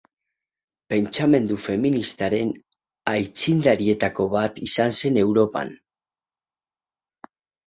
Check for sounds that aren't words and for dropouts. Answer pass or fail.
pass